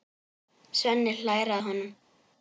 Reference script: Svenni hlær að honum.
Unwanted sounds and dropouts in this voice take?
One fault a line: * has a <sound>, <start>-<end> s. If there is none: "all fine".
all fine